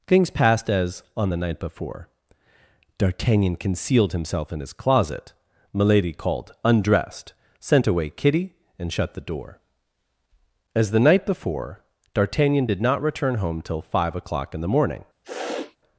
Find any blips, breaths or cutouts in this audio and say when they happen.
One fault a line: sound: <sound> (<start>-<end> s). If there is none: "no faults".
sound: sniff (15.2-15.8 s)